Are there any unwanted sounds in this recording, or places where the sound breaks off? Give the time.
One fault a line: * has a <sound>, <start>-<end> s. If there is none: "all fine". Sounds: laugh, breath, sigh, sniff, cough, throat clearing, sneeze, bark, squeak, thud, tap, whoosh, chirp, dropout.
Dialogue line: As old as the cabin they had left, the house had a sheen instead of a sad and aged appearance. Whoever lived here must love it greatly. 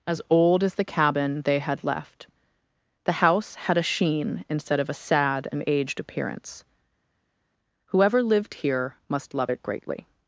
all fine